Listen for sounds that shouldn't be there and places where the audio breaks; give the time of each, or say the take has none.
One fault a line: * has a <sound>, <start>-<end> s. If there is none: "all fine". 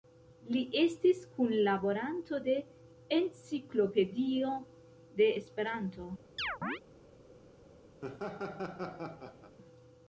* has a chirp, 6.4-6.8 s
* has a laugh, 8.0-9.6 s